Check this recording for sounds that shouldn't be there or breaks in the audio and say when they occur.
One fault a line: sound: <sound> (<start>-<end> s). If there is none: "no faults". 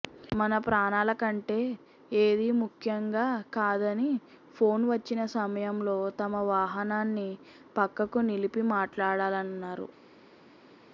no faults